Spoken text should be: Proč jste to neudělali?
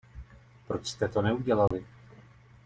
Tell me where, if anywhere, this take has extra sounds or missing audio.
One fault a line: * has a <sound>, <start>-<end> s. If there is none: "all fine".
* has a dropout, 1.7-1.7 s